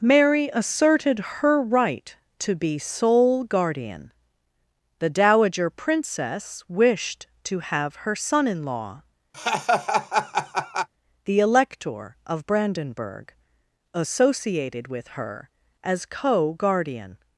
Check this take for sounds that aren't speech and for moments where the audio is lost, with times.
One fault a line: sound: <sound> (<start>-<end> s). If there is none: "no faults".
sound: laugh (9.3-10.9 s)